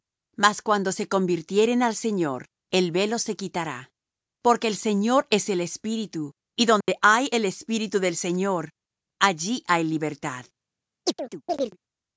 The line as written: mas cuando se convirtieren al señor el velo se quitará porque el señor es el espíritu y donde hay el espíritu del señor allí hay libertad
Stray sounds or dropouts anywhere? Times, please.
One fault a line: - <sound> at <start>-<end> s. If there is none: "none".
- dropout at 6.8-6.9 s
- chirp at 11.0-11.8 s